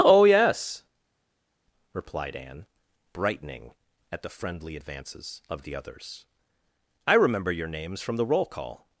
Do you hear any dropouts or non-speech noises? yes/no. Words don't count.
no